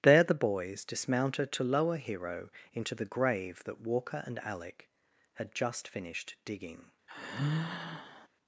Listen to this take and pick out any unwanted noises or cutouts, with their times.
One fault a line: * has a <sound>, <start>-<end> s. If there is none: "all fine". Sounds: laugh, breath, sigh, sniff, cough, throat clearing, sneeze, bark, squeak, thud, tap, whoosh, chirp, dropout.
* has a sigh, 7.1-8.3 s